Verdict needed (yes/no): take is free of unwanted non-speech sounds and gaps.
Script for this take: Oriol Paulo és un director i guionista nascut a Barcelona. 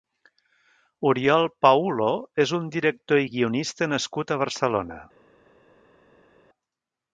yes